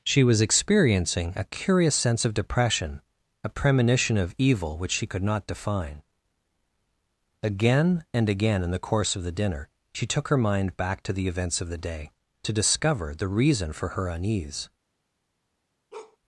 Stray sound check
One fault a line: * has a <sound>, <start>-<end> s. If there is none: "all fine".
* has a bark, 15.9-16.2 s